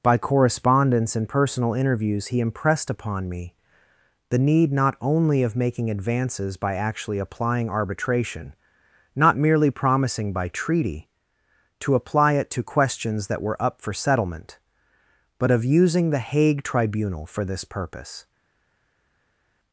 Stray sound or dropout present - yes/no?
no